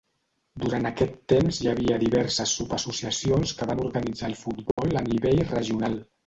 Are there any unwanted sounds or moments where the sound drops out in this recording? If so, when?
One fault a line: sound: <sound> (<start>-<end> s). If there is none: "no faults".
sound: dropout (4.7-4.8 s)